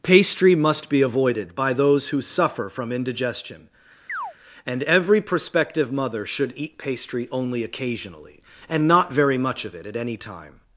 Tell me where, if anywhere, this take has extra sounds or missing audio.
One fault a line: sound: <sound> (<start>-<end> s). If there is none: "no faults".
sound: chirp (4.1-4.3 s)